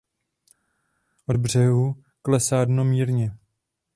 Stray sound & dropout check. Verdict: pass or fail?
pass